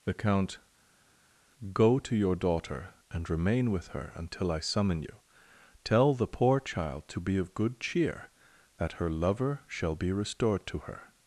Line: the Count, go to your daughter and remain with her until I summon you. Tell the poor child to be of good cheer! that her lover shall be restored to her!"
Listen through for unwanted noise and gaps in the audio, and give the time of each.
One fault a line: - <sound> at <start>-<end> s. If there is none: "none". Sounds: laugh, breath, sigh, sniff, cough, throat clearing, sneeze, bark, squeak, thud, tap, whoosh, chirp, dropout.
none